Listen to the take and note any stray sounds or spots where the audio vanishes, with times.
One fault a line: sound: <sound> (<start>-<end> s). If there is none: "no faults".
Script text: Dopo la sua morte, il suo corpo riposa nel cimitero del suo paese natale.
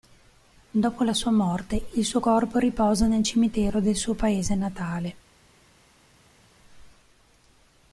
no faults